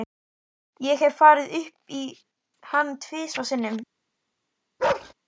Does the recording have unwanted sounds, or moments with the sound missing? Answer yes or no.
yes